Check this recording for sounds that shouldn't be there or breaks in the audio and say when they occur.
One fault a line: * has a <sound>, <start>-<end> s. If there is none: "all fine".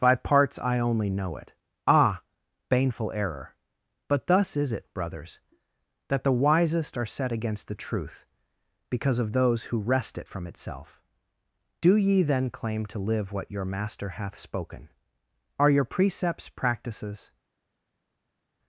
all fine